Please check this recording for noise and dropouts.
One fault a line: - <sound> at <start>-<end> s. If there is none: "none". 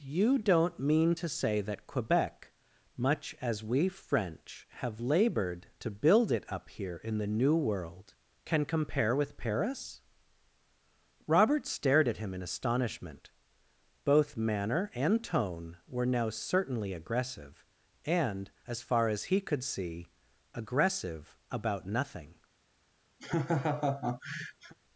- laugh at 23.2-24.7 s